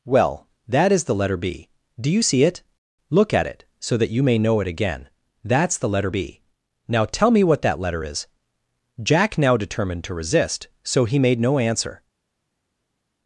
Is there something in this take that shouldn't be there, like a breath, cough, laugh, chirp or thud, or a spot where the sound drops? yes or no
no